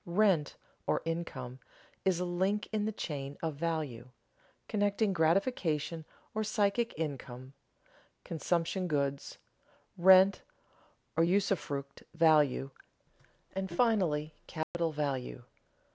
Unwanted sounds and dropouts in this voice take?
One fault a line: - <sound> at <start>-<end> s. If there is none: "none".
- dropout at 14.6-14.7 s